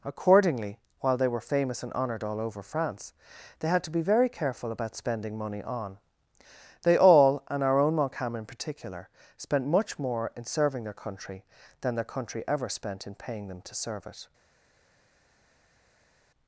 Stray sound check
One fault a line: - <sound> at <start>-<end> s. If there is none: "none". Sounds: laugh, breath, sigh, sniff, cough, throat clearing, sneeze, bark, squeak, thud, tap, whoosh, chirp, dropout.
none